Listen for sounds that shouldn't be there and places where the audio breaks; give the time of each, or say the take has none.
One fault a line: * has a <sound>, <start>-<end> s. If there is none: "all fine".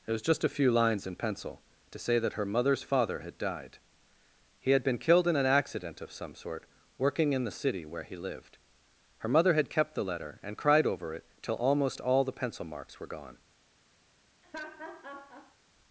* has a laugh, 14.4-15.6 s